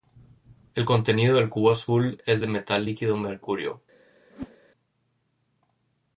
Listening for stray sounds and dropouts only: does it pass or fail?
fail